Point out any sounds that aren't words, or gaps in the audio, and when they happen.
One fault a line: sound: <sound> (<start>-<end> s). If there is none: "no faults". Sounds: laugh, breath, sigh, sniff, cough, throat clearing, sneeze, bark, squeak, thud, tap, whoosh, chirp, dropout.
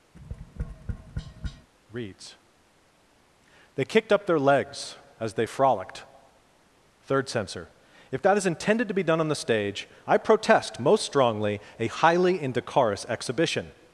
sound: tap (0.1-1.7 s)